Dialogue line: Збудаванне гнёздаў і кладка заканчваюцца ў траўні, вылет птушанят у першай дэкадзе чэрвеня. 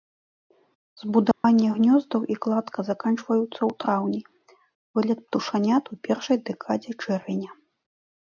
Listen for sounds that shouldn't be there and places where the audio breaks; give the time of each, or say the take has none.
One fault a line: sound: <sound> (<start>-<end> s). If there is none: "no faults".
sound: dropout (1.3-1.4 s)